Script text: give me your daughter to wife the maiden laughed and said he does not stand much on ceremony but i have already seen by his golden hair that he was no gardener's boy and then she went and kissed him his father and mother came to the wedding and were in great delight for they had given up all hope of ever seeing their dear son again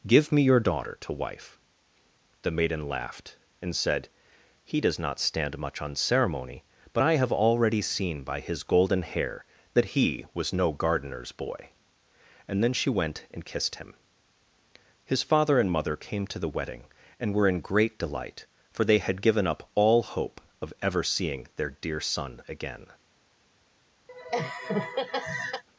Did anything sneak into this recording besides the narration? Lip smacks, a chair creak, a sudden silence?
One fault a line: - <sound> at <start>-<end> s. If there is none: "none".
- laugh at 24.1-25.6 s